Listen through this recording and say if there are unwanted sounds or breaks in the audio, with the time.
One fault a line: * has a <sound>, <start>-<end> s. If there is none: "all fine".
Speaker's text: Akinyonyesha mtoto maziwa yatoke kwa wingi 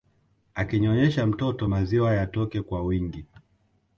all fine